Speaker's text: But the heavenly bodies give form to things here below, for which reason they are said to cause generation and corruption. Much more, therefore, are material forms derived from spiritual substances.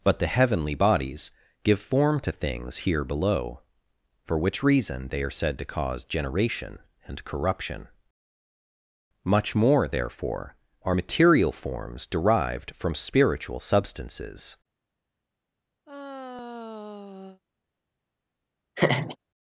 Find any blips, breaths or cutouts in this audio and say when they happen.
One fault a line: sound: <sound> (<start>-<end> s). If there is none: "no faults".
sound: sigh (15.8-17.4 s)
sound: laugh (18.8-19.2 s)